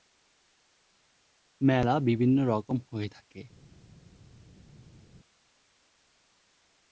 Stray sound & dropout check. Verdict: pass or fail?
pass